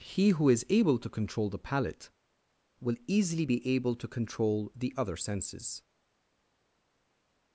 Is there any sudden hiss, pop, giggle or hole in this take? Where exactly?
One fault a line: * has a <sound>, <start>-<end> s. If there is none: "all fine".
all fine